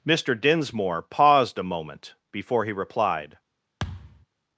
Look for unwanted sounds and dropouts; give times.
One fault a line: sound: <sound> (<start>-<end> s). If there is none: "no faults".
sound: thud (3.8-4.3 s)